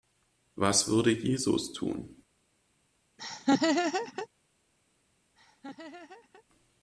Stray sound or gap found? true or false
true